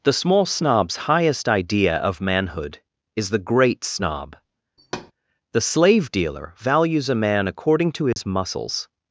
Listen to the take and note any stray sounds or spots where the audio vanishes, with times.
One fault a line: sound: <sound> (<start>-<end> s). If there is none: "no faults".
sound: thud (4.8-5.1 s)
sound: dropout (8.1-8.2 s)